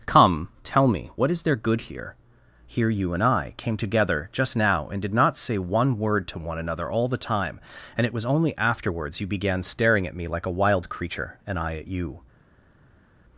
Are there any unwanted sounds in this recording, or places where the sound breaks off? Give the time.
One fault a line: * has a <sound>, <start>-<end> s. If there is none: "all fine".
all fine